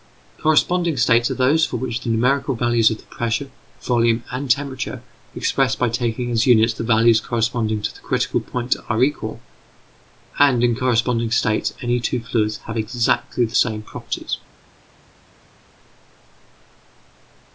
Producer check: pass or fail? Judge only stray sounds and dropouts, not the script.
pass